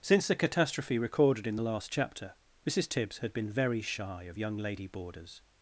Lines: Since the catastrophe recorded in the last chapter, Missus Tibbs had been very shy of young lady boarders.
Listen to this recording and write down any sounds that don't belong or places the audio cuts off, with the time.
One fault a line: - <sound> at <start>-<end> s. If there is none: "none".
none